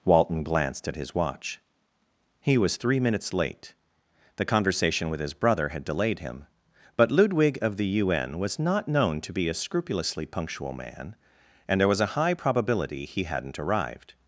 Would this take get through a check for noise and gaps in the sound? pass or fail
pass